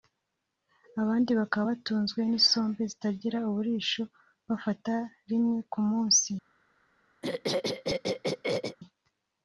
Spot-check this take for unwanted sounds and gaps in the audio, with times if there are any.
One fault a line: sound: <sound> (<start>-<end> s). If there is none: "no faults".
sound: throat clearing (7.2-8.8 s)